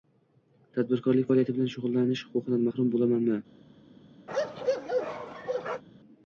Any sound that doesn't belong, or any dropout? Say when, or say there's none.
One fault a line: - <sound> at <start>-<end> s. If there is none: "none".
- bark at 4.3-5.8 s